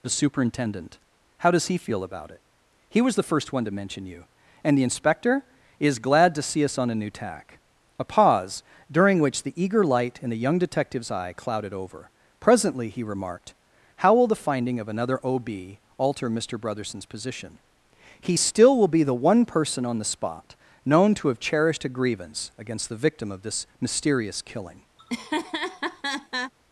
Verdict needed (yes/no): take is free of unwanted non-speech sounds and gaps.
no